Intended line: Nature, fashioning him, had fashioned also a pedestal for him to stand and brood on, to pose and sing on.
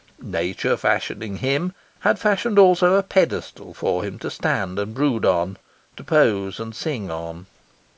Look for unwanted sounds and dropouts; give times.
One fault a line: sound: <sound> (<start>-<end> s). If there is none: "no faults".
no faults